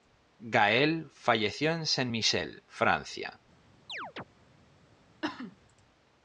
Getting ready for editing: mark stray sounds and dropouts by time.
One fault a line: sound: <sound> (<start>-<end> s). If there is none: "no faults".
sound: chirp (3.9-4.2 s)
sound: cough (5.2-5.6 s)